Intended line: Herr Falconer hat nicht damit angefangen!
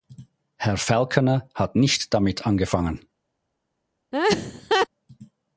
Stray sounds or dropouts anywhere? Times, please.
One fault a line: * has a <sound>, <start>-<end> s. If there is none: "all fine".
* has a laugh, 4.1-4.9 s